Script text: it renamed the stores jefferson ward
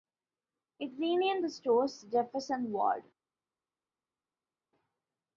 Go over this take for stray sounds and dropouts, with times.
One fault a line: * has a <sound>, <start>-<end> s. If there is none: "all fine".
all fine